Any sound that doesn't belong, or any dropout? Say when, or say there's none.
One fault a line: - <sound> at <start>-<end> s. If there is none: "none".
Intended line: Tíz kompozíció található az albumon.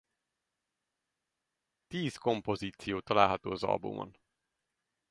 none